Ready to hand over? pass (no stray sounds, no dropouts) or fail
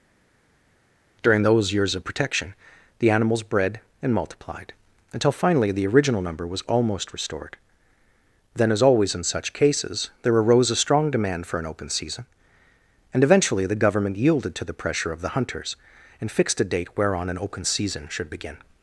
pass